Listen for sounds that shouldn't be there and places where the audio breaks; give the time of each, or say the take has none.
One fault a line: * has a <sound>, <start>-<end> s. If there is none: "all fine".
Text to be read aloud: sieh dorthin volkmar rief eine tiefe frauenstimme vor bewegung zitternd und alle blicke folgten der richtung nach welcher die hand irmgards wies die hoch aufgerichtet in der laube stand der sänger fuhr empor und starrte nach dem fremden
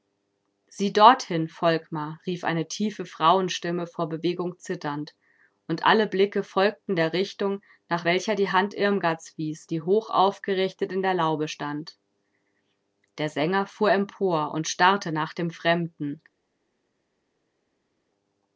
all fine